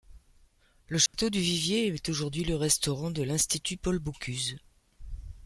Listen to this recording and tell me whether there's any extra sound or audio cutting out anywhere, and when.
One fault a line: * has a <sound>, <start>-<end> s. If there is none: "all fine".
* has a dropout, 1.1-1.1 s